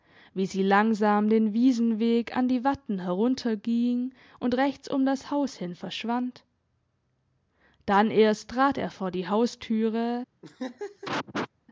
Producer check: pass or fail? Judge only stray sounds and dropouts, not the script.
fail